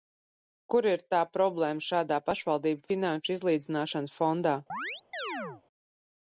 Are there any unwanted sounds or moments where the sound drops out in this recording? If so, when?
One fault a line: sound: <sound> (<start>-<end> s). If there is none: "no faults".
sound: chirp (4.7-5.6 s)